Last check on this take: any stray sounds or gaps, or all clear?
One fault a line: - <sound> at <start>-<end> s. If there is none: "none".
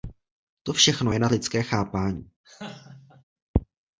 - laugh at 2.4-3.2 s